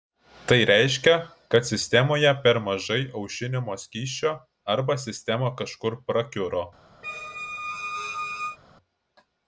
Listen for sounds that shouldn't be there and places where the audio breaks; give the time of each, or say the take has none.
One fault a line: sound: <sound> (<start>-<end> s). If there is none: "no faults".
sound: squeak (7.0-8.6 s)